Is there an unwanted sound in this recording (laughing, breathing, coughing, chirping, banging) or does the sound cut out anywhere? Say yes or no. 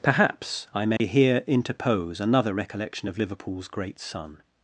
yes